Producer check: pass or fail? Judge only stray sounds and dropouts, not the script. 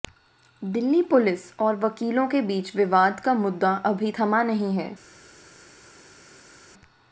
pass